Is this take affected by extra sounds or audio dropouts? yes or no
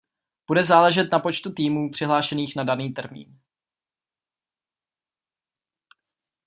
no